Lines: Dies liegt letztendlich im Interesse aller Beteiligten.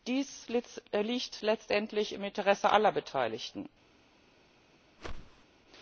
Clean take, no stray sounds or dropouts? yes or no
no